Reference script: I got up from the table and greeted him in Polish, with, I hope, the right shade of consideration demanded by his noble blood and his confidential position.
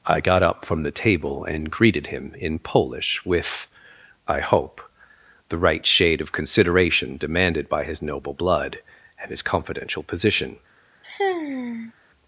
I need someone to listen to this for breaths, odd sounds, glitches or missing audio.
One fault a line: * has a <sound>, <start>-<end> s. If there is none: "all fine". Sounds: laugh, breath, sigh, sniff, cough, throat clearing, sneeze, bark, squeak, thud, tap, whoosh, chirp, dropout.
* has a sigh, 11.0-11.9 s